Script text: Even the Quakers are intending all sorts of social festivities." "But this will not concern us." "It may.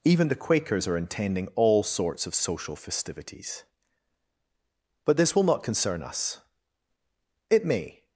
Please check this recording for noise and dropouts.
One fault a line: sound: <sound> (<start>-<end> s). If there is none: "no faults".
no faults